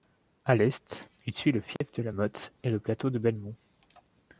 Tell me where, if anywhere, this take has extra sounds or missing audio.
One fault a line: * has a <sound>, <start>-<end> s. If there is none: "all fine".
* has a dropout, 1.8-1.8 s